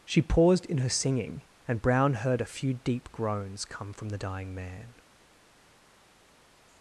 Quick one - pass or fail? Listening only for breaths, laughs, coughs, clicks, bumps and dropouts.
pass